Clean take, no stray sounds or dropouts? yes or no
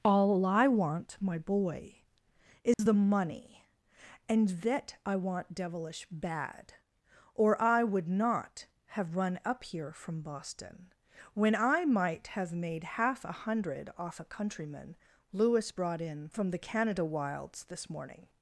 no